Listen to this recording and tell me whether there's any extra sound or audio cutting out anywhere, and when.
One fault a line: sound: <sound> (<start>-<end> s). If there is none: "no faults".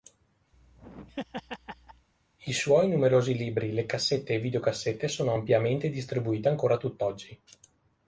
sound: laugh (0.5-2.1 s)